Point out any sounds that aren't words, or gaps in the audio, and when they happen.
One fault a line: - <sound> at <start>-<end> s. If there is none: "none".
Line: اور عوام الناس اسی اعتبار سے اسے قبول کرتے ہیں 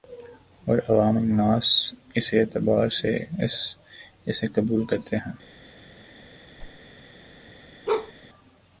- whoosh at 6.6-6.8 s
- bark at 7.9-8.1 s